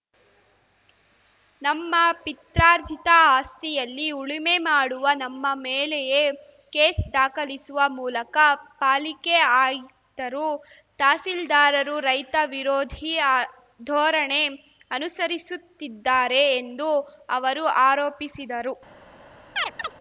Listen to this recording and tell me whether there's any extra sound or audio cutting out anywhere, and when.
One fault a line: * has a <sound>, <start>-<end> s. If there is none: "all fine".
* has a chirp, 19.6-19.9 s